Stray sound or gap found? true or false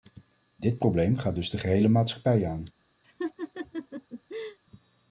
true